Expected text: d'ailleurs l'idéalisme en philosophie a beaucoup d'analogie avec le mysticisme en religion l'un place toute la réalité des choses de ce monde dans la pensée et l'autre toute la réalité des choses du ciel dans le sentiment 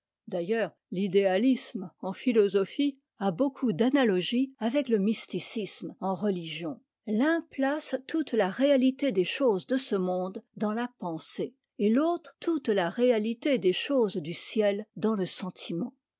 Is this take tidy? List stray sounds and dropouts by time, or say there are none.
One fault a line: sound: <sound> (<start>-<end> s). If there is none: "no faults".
no faults